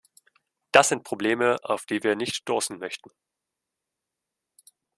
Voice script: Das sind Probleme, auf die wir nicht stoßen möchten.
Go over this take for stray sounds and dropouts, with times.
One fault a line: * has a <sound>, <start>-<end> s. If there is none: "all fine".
all fine